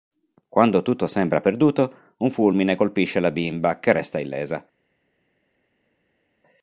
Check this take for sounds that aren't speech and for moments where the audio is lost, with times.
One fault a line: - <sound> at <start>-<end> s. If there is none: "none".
none